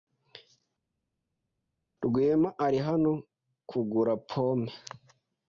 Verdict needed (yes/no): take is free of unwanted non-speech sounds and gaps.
yes